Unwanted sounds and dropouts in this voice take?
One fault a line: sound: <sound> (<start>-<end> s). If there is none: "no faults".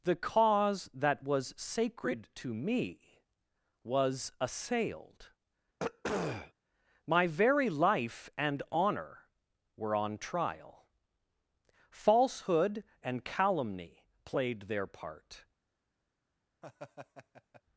sound: throat clearing (5.8-6.5 s)
sound: laugh (16.6-17.6 s)